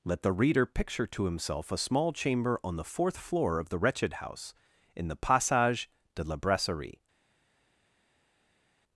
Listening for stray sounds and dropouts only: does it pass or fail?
pass